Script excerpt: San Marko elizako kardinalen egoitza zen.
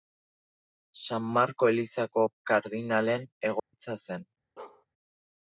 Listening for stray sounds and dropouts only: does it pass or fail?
fail